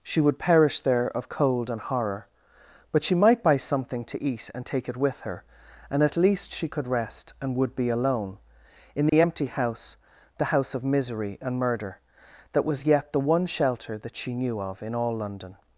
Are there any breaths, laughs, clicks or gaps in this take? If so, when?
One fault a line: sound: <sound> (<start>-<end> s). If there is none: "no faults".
sound: dropout (9.1-9.1 s)